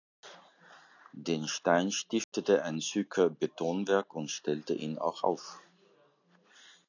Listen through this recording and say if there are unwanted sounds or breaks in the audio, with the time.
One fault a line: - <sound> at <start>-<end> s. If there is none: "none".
- dropout at 2.2-2.3 s